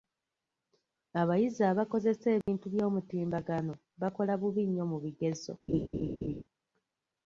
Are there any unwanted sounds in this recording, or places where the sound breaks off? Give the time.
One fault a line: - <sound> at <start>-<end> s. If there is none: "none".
- dropout at 2.4-2.5 s
- laugh at 5.7-6.4 s